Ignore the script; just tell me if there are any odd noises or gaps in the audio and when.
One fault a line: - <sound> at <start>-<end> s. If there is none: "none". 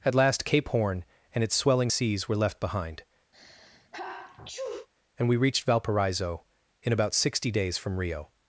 - sneeze at 3.3-4.9 s